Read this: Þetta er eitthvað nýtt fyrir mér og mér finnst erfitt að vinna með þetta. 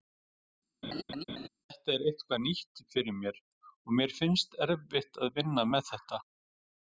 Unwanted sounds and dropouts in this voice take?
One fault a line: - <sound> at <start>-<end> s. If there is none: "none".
- laugh at 0.8-1.5 s